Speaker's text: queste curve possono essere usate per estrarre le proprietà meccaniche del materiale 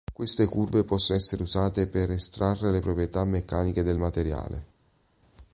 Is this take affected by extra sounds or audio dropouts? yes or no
no